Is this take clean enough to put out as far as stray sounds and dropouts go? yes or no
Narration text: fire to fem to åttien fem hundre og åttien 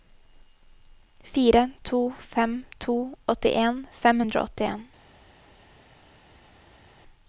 yes